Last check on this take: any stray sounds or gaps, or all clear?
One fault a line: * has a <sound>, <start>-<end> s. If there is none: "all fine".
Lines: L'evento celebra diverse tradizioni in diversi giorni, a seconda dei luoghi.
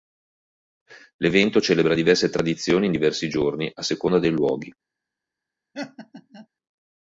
* has a laugh, 5.7-6.5 s